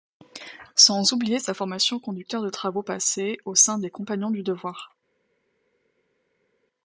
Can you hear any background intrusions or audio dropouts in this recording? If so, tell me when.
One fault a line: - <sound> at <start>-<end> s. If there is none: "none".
none